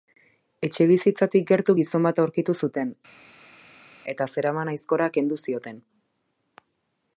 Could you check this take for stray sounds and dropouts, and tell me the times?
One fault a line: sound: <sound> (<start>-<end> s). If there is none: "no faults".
no faults